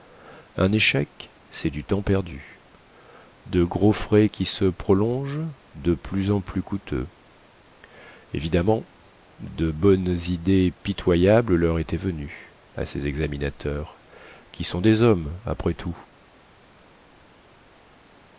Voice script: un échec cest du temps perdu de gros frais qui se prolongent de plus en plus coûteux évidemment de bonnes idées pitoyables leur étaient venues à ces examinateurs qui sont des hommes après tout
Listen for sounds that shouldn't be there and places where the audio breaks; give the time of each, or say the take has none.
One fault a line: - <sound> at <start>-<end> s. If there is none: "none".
none